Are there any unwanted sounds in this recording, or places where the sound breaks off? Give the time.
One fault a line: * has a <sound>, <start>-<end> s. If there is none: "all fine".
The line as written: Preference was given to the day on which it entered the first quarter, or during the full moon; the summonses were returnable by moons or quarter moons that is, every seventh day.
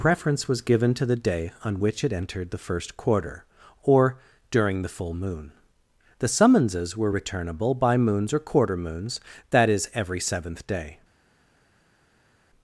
all fine